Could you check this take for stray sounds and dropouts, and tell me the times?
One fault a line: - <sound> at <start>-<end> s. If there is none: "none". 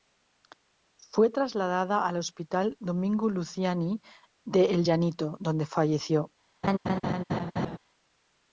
- laugh at 6.6-7.8 s